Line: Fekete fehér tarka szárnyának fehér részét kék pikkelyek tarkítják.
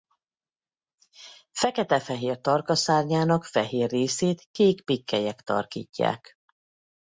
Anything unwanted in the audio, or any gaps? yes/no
no